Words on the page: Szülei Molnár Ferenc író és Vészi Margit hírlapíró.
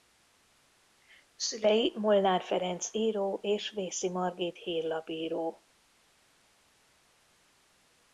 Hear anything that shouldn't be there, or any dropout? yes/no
no